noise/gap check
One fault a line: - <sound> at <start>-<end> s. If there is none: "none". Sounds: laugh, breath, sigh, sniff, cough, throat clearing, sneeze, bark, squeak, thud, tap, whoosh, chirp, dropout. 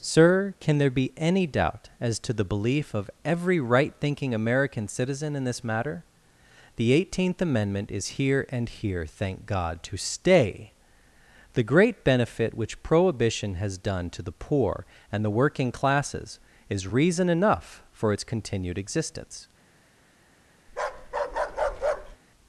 - bark at 20.7-22.2 s